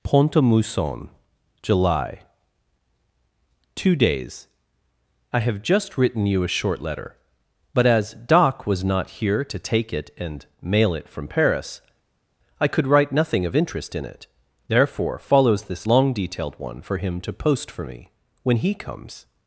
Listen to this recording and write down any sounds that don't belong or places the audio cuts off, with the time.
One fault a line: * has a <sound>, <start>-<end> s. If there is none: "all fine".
all fine